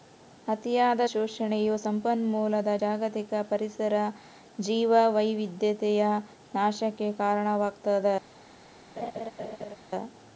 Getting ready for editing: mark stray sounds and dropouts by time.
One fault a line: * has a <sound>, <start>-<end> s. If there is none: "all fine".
* has a laugh, 9.0-9.8 s